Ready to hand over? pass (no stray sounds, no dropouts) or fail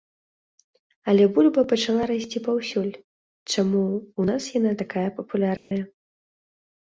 fail